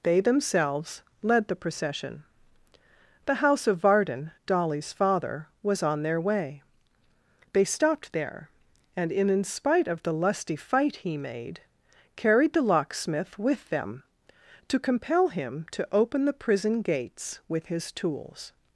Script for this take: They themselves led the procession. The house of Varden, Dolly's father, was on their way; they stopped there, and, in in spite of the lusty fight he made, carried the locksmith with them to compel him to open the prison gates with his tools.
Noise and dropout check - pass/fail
pass